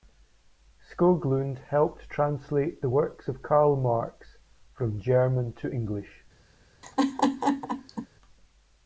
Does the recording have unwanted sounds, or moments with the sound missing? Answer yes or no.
yes